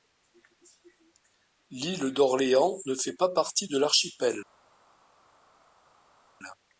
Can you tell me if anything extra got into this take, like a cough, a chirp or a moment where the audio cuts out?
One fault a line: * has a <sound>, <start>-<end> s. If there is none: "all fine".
all fine